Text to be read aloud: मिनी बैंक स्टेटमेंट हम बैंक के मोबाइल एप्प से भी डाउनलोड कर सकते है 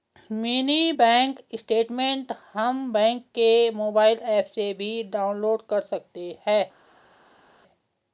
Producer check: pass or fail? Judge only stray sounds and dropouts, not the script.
pass